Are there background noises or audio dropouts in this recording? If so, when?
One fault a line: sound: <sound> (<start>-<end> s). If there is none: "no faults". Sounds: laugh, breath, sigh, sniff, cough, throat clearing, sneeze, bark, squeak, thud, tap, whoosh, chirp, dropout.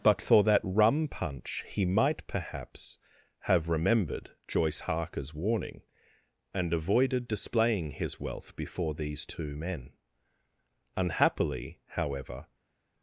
no faults